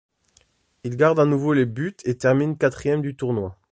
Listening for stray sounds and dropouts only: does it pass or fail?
pass